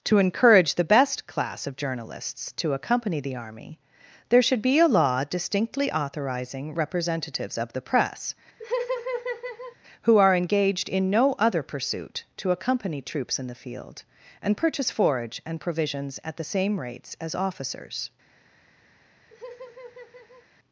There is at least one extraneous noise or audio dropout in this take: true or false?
true